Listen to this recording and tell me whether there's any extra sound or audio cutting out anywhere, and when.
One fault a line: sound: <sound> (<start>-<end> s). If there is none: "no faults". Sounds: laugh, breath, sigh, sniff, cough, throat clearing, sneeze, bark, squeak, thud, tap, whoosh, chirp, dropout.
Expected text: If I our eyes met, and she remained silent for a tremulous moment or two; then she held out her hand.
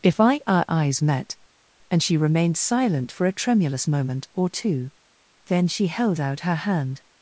no faults